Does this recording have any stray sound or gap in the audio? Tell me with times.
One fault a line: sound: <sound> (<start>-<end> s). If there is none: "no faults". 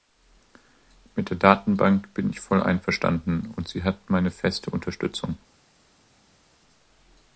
no faults